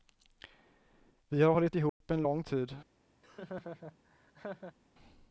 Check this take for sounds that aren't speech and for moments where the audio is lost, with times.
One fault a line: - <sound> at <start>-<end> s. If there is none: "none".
- dropout at 1.9-2.0 s
- laugh at 3.2-4.8 s